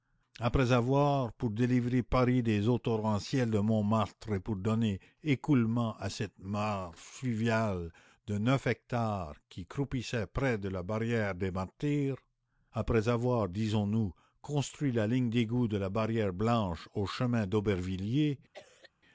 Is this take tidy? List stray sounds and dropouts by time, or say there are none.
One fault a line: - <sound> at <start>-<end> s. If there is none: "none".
- cough at 18.5-18.9 s